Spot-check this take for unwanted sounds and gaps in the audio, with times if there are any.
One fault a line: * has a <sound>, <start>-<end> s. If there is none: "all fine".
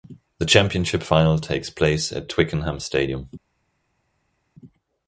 all fine